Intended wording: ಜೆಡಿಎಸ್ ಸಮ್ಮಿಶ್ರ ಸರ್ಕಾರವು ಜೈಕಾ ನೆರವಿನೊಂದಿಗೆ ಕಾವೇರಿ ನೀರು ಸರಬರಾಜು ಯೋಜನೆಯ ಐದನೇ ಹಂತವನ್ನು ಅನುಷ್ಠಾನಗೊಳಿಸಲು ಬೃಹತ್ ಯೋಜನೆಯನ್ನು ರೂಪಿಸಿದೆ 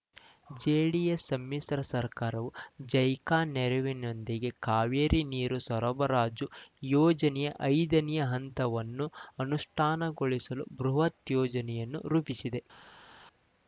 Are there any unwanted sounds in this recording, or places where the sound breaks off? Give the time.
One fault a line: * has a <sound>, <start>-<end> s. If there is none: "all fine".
all fine